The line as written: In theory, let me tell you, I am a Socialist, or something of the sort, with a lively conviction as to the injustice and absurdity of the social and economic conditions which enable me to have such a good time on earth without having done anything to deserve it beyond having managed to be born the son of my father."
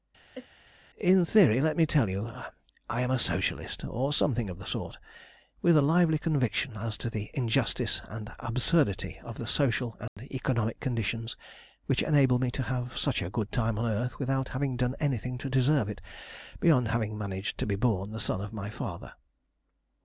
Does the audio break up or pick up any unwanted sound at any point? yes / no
yes